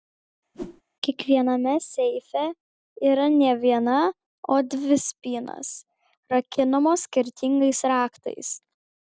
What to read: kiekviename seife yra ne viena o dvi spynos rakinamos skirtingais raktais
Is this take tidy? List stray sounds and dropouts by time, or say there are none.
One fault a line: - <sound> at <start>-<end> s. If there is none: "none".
- whoosh at 0.5-0.8 s